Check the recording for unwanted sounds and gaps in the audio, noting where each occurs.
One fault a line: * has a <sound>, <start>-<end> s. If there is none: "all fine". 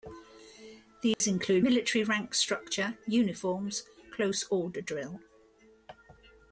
* has a dropout, 1.1-1.2 s